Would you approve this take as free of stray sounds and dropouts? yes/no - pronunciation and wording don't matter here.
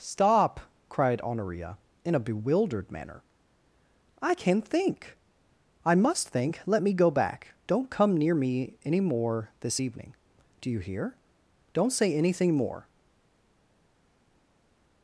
yes